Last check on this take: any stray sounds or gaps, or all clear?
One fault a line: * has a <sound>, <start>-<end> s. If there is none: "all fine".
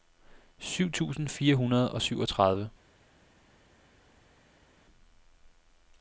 all fine